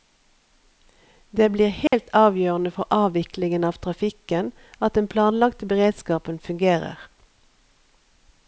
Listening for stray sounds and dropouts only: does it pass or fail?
fail